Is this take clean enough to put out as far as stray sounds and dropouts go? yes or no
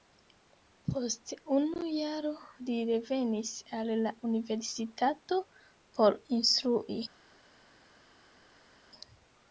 yes